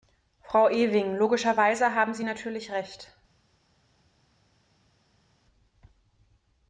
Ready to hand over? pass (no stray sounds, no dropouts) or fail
pass